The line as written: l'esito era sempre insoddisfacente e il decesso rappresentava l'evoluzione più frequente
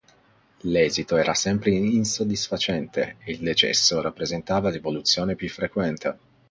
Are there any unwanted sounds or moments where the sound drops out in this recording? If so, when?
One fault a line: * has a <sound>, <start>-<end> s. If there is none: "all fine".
all fine